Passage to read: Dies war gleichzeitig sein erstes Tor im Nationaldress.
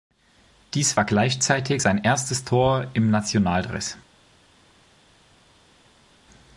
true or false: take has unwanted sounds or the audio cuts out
false